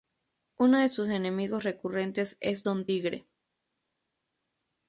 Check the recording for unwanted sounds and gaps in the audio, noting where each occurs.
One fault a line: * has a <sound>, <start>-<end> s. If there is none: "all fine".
all fine